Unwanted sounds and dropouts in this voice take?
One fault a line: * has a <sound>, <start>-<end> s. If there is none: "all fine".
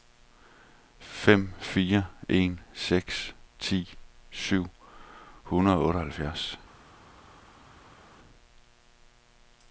all fine